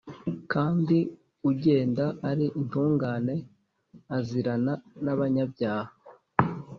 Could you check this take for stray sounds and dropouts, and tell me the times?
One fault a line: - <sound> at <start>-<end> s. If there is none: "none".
none